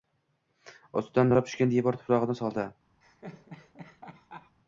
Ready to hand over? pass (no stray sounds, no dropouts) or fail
fail